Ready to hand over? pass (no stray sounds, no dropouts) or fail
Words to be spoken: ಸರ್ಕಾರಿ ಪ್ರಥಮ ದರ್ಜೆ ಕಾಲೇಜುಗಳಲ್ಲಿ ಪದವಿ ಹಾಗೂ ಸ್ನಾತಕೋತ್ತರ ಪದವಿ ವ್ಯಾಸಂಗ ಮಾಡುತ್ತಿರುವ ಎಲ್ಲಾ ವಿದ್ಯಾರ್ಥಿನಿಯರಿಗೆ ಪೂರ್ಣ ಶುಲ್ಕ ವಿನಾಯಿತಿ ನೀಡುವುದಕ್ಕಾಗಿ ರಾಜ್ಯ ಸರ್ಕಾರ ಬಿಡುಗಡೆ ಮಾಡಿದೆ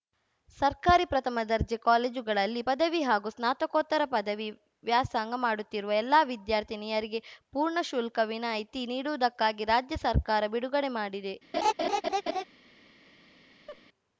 fail